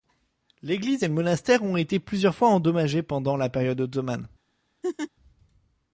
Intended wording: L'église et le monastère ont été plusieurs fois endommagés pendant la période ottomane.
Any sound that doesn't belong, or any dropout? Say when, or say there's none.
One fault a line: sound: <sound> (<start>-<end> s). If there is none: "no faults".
sound: laugh (4.8-5.1 s)